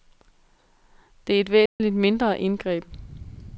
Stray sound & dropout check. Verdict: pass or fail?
fail